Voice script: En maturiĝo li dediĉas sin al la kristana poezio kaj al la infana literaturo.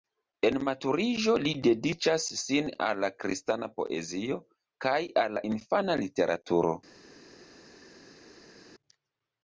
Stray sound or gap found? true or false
false